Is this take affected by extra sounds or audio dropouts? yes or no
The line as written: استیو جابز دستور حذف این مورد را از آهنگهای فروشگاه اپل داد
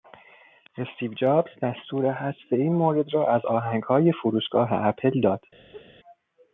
yes